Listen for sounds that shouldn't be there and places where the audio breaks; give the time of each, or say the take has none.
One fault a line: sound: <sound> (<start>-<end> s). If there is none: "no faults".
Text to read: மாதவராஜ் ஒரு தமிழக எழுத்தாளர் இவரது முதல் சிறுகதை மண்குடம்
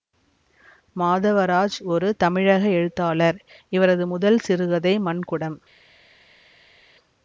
no faults